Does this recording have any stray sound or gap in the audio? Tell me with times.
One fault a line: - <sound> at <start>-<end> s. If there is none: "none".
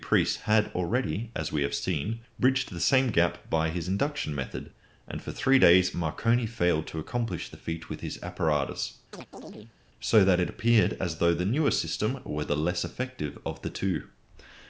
- chirp at 9.1-9.8 s